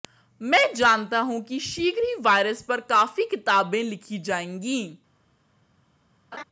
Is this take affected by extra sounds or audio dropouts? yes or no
yes